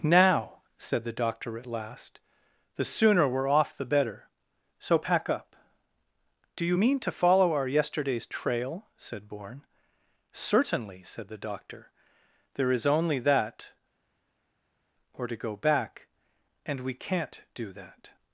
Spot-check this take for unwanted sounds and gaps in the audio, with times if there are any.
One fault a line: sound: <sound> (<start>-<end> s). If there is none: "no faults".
no faults